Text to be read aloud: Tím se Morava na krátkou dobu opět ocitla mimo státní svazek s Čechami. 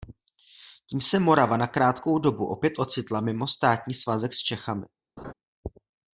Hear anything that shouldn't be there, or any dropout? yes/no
yes